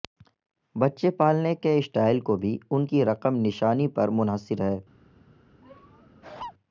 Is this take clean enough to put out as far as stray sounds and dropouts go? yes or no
no